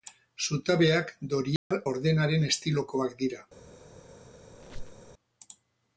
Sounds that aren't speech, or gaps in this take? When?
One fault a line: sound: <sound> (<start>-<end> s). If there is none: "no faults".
sound: dropout (1.6-1.7 s)
sound: squeak (4.5-5.1 s)